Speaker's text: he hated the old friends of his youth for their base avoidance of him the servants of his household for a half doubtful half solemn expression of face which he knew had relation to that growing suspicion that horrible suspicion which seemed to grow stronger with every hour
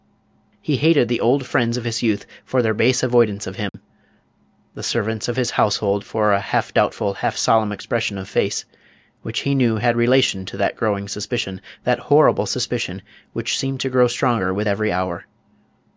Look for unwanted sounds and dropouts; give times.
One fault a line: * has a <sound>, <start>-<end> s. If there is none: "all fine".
* has a dropout, 3.7-3.7 s